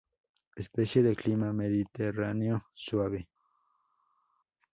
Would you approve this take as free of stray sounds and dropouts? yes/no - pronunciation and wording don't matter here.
yes